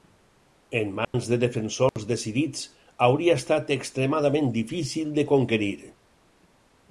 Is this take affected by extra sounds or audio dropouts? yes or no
yes